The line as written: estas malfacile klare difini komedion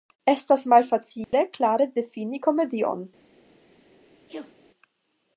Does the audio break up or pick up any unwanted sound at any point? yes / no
yes